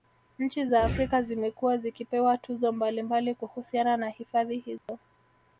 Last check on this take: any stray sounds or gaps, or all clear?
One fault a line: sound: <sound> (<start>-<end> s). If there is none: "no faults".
sound: dropout (4.8-4.9 s)